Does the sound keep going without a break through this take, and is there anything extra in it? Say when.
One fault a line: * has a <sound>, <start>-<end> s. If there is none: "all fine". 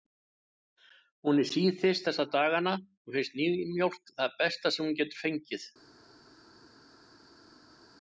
all fine